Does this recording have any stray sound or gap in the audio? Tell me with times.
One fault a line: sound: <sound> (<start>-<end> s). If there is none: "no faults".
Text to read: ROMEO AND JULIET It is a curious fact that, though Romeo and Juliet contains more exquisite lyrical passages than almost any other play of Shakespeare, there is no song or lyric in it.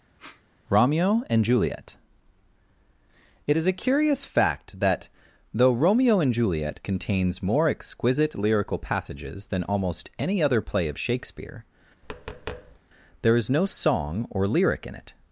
sound: sniff (0.2-0.4 s)
sound: tap (12.0-12.8 s)